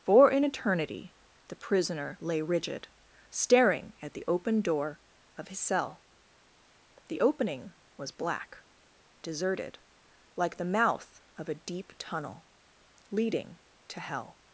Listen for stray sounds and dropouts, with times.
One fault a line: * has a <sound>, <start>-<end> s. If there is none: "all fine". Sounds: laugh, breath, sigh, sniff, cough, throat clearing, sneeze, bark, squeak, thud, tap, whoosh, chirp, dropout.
all fine